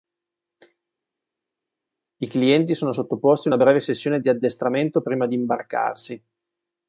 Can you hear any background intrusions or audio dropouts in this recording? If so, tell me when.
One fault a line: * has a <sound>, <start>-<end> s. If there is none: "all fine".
all fine